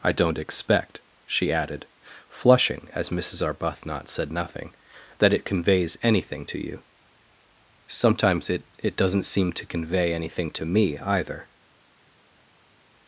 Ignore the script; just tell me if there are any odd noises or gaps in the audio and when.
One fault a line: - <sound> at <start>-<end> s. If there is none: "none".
none